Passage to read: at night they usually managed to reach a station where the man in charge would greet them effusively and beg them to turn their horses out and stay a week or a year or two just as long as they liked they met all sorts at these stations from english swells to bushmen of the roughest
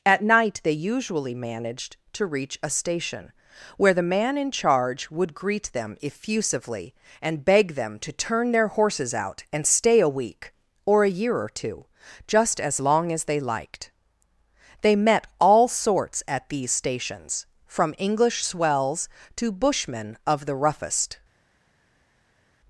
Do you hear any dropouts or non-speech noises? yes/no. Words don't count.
no